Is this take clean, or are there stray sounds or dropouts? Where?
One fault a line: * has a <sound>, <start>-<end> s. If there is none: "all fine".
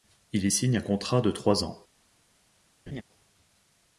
* has a laugh, 2.9-3.0 s